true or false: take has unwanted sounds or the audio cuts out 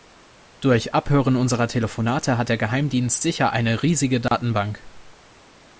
true